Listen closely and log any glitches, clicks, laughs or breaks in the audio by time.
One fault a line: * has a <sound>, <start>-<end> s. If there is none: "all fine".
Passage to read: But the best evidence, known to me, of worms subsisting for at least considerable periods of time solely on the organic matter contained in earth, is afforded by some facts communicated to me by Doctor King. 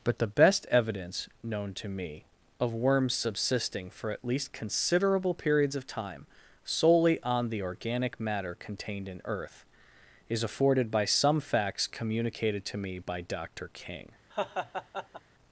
* has a laugh, 14.3-15.2 s